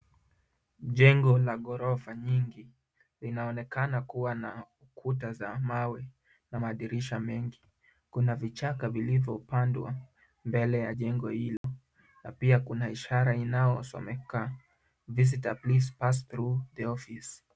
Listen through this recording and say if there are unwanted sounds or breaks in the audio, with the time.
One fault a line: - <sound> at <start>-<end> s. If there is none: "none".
- dropout at 11.6-11.6 s